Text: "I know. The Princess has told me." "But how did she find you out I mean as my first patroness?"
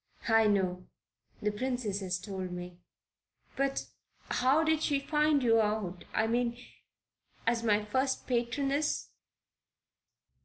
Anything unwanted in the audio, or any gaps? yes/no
no